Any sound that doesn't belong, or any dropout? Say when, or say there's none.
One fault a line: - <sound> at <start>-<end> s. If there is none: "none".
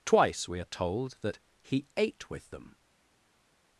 none